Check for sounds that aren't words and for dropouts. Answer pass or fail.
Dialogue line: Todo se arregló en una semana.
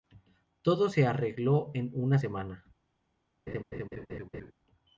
fail